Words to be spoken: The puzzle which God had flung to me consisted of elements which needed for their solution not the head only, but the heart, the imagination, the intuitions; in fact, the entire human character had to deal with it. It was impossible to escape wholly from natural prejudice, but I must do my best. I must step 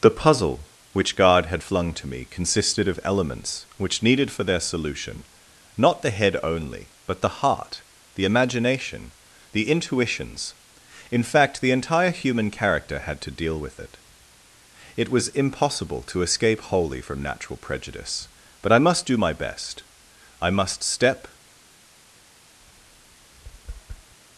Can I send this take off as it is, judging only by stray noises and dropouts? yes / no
no